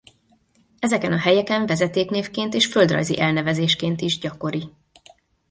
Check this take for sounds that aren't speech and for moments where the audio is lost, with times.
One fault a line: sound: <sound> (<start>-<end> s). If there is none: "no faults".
no faults